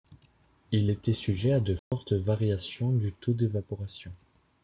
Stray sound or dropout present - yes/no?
yes